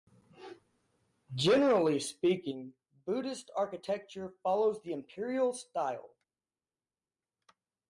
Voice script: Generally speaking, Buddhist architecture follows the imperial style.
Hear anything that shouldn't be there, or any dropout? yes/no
no